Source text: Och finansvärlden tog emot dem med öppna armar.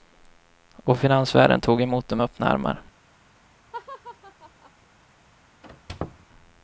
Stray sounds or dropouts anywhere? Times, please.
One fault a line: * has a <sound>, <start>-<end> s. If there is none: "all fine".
* has a laugh, 3.7-4.7 s
* has a squeak, 5.6-6.3 s